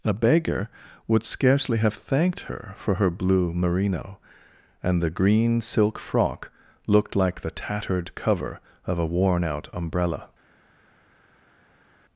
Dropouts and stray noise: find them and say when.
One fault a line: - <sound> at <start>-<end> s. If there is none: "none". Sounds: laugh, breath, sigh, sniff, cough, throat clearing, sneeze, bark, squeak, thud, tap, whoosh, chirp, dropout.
none